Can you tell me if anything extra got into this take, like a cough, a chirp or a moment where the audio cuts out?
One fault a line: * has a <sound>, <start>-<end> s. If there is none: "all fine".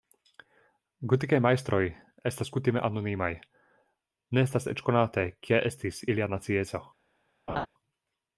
* has a laugh, 7.5-7.7 s